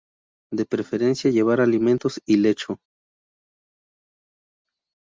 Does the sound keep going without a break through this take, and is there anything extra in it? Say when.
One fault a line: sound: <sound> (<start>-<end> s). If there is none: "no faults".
no faults